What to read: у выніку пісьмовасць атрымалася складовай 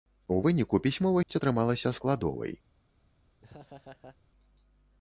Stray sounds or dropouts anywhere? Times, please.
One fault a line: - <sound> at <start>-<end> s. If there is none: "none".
- dropout at 1.2-1.3 s
- laugh at 3.4-4.2 s